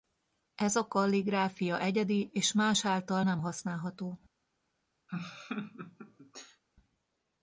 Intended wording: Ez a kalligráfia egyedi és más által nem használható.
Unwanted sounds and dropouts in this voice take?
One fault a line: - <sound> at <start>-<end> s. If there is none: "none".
- laugh at 5.1-6.6 s